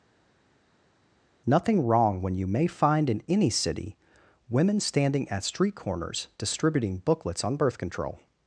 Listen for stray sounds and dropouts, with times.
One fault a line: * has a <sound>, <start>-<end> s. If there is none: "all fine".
all fine